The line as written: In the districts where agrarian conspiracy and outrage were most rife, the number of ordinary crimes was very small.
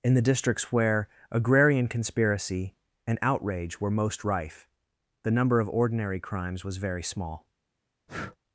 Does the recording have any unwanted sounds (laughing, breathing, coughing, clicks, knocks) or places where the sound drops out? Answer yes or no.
yes